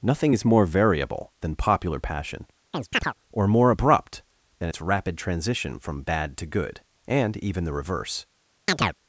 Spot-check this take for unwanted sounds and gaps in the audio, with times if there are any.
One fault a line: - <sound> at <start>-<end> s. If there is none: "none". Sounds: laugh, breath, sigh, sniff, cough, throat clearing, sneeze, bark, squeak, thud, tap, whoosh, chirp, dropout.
- chirp at 2.7-3.1 s
- chirp at 8.7-8.9 s